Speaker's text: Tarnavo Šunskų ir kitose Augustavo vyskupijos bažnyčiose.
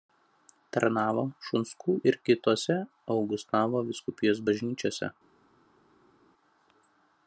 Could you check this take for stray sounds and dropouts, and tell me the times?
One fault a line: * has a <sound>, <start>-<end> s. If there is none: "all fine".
all fine